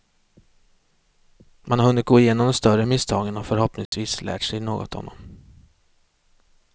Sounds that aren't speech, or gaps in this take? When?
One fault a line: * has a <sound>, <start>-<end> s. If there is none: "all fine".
* has a dropout, 3.9-3.9 s